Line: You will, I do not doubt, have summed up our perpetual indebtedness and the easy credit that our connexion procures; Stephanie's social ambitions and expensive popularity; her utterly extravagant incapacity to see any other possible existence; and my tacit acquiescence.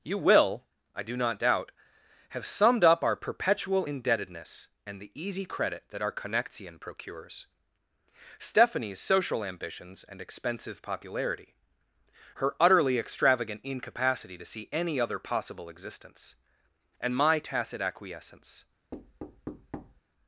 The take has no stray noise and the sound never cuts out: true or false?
false